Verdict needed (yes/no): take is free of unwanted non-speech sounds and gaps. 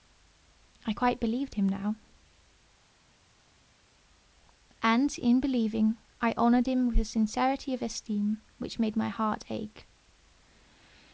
yes